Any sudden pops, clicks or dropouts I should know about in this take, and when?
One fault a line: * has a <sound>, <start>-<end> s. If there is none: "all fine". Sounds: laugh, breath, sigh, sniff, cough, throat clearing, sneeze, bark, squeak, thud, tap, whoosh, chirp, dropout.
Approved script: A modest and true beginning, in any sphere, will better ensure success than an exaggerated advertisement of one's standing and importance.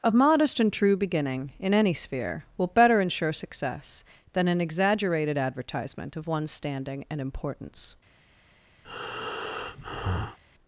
* has a breath, 8.8-10.4 s